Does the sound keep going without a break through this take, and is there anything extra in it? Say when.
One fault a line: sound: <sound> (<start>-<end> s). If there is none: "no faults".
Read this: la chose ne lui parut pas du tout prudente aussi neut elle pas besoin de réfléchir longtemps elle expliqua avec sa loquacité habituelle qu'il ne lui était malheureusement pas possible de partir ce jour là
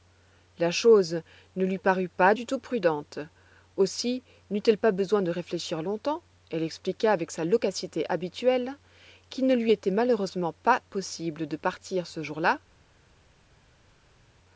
no faults